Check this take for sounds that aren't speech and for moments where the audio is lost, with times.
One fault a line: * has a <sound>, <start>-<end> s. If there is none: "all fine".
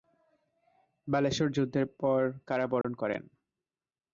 * has a dropout, 2.8-2.8 s